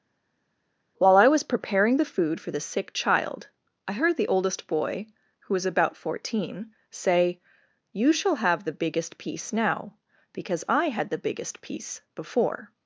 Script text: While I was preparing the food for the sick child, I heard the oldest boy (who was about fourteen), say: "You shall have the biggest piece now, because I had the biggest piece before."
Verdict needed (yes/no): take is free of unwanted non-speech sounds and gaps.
yes